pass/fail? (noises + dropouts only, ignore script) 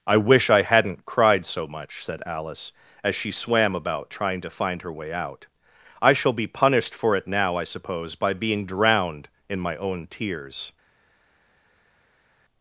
pass